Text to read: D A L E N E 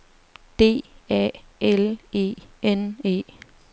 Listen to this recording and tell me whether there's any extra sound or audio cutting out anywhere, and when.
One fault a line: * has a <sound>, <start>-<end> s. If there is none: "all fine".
all fine